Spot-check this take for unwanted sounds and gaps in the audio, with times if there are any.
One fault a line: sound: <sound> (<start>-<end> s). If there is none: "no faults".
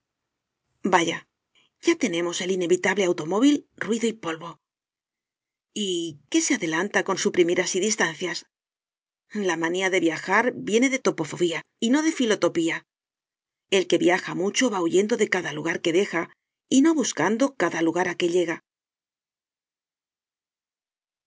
no faults